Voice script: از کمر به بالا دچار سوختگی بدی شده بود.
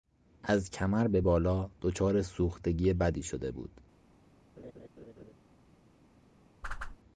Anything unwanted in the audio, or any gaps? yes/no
yes